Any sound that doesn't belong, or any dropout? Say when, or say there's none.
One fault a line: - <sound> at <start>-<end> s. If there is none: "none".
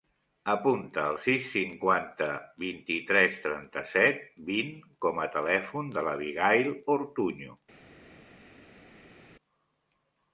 none